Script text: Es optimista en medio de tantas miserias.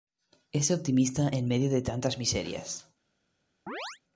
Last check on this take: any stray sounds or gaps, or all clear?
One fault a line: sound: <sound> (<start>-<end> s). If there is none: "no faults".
sound: chirp (3.7-4.0 s)